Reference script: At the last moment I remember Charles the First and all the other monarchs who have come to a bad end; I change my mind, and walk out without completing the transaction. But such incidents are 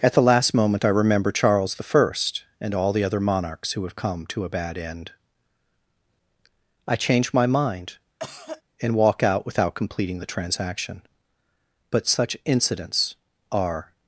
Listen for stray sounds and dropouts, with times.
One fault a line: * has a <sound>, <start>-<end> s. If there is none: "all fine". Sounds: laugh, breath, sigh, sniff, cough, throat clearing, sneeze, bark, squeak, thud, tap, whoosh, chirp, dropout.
* has a cough, 8.2-8.6 s